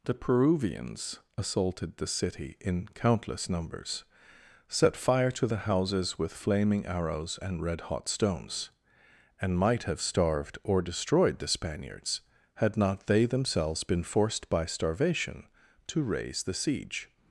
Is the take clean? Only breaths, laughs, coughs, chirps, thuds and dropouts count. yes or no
yes